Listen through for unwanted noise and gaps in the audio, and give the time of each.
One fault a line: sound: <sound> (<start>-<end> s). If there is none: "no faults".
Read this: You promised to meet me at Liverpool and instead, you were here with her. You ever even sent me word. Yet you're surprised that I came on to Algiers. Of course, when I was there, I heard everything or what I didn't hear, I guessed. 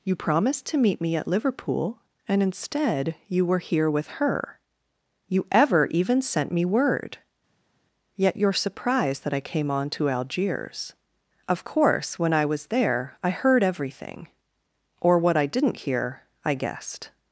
no faults